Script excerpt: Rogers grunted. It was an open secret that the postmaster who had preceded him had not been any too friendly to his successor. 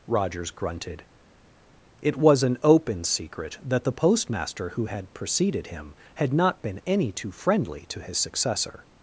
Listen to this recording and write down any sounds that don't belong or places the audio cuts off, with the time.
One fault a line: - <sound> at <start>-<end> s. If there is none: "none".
none